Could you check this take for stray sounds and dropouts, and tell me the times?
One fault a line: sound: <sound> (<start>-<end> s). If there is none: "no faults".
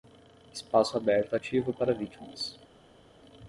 no faults